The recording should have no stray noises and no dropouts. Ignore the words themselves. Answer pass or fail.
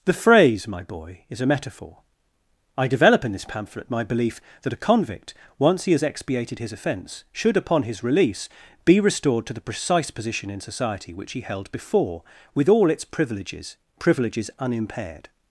pass